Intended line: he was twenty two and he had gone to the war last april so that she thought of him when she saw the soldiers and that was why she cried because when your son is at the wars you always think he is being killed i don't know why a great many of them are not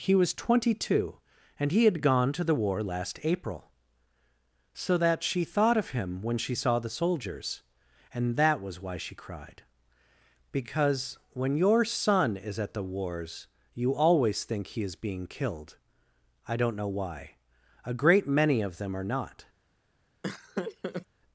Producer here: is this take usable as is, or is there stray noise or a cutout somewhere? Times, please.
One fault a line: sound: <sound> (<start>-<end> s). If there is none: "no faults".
sound: laugh (20.2-21.1 s)